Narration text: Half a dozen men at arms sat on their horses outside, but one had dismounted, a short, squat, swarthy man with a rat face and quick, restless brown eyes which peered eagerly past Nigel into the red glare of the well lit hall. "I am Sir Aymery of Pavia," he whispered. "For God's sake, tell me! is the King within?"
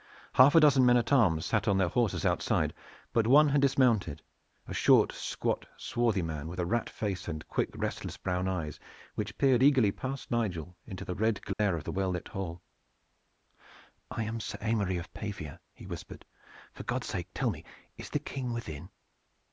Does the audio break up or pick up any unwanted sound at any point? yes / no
yes